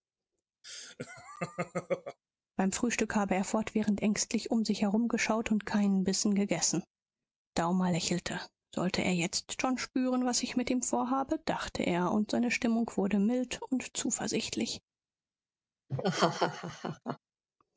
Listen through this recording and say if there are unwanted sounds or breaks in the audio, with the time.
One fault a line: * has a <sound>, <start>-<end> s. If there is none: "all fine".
* has a laugh, 0.6-2.2 s
* has a laugh, 15.9-17.2 s